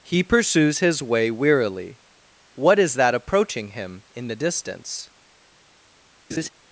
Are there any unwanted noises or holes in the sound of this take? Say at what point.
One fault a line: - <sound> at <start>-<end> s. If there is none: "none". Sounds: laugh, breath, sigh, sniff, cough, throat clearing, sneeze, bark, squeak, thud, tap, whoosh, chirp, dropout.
- laugh at 6.3-6.5 s